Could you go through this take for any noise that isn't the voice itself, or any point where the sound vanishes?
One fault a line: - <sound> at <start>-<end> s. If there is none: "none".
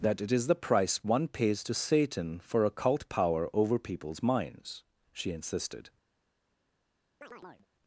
- chirp at 7.2-7.7 s